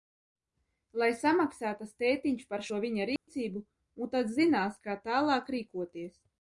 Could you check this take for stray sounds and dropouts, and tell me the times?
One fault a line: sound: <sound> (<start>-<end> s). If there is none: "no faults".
sound: dropout (3.2-3.3 s)